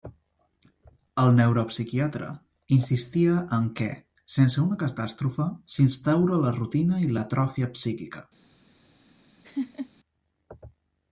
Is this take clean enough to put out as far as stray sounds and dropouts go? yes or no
no